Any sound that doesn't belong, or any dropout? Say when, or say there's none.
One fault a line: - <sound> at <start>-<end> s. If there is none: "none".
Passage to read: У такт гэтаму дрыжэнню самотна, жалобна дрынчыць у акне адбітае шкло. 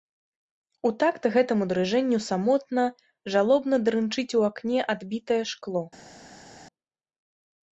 none